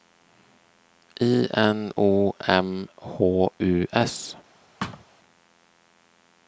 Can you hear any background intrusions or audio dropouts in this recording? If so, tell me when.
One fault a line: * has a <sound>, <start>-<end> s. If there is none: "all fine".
* has a thud, 4.8-5.0 s